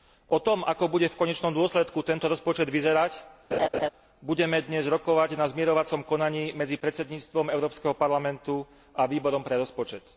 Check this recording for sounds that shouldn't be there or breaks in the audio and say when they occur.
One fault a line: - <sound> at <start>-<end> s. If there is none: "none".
- laugh at 3.5-3.9 s